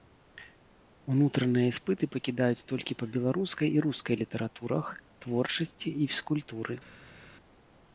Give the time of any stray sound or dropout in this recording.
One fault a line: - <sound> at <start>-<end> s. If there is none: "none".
none